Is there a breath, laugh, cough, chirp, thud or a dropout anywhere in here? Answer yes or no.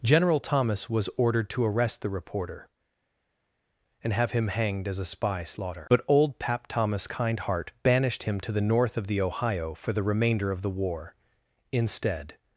no